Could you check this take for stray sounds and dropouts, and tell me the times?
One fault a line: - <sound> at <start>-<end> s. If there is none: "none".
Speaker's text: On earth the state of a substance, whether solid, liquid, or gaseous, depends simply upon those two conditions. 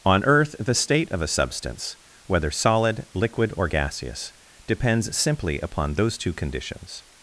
none